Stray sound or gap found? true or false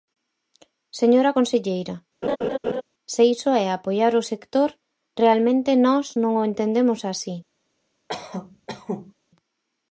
true